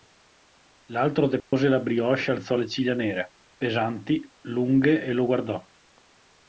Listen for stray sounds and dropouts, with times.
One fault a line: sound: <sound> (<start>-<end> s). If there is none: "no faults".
sound: dropout (1.4-1.5 s)